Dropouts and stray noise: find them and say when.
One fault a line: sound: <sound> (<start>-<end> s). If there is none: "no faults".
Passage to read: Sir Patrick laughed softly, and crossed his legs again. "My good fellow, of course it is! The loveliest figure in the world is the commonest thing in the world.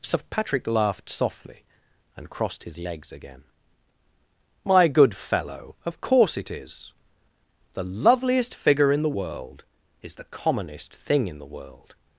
no faults